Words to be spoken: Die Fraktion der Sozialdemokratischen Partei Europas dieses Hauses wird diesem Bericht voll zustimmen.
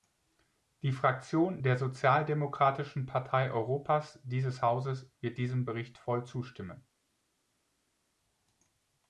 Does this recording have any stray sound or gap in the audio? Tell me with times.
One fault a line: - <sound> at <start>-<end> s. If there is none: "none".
none